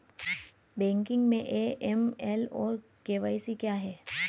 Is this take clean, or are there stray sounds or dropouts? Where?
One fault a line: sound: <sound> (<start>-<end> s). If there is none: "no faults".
no faults